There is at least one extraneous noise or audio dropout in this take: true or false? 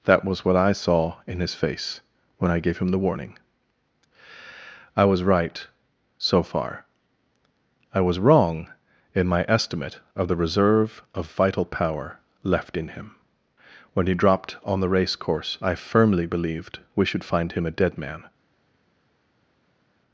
false